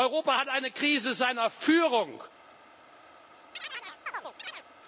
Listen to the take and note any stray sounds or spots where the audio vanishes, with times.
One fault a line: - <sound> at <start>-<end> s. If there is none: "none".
- chirp at 3.5-4.6 s